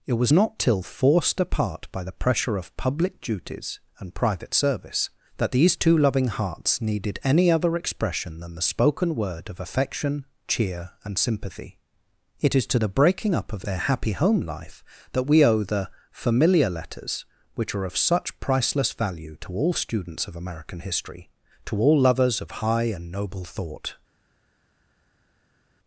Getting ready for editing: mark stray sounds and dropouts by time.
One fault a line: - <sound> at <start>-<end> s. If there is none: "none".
none